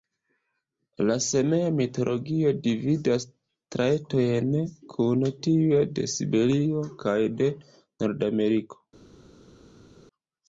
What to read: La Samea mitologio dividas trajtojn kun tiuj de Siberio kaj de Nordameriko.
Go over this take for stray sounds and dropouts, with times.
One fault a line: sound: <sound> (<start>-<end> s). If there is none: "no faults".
no faults